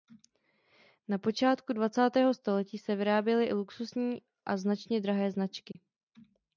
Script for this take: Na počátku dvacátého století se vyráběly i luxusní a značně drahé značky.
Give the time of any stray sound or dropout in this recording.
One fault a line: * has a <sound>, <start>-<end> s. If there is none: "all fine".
* has a dropout, 5.7-5.7 s